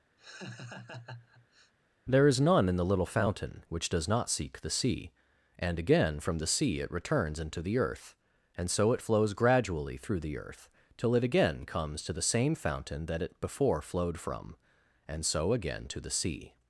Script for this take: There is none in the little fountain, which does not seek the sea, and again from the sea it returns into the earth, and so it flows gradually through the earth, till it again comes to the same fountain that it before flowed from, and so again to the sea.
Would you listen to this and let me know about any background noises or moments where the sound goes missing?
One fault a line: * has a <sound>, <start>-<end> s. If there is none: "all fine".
* has a laugh, 0.2-1.7 s